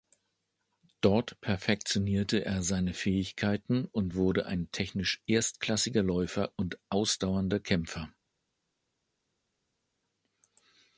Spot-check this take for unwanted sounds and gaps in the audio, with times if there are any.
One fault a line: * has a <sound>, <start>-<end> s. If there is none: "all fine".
all fine